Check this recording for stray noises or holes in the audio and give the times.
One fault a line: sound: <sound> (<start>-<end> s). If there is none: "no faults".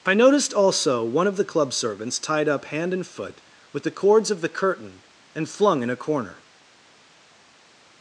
no faults